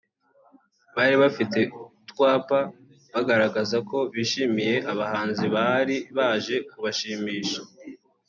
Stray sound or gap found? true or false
false